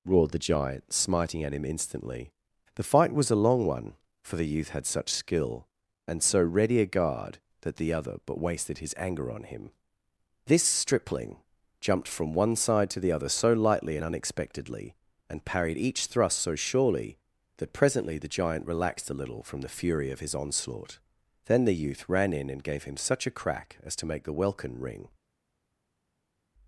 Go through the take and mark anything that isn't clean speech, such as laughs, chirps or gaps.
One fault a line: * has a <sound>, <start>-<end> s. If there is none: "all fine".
all fine